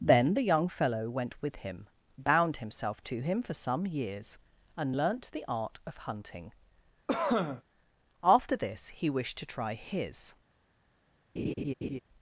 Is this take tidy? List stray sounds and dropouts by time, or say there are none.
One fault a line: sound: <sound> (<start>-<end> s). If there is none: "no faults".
sound: cough (7.1-7.6 s)
sound: laugh (11.4-12.0 s)